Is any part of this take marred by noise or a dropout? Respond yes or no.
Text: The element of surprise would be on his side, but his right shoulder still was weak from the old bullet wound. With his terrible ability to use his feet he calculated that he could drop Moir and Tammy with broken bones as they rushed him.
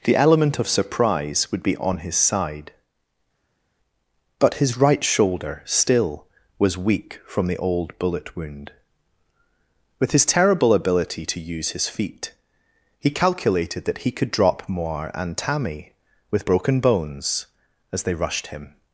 no